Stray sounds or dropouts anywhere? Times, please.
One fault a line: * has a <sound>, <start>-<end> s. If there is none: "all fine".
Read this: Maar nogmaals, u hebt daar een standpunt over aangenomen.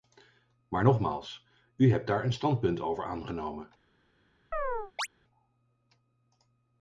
* has a chirp, 4.5-5.1 s